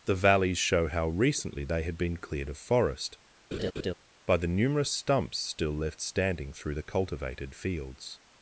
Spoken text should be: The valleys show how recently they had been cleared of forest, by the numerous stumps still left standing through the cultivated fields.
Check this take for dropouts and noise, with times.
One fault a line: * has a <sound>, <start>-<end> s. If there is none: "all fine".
* has a laugh, 3.5-3.9 s